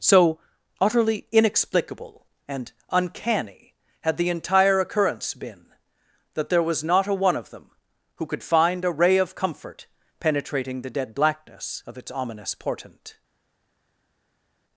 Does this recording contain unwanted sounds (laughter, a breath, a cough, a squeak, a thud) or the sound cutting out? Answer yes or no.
no